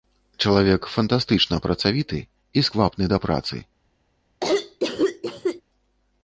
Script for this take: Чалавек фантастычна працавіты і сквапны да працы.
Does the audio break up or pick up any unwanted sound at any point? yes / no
yes